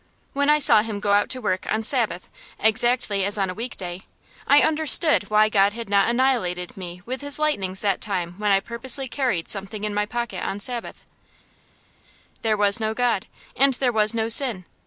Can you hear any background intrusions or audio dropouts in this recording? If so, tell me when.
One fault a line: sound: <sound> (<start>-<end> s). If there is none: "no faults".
no faults